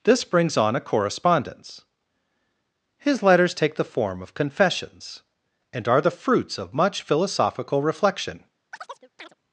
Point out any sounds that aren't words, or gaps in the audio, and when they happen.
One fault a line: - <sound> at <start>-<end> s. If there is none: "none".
- chirp at 8.7-9.3 s